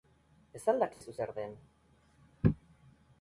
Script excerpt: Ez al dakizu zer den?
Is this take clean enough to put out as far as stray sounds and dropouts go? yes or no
no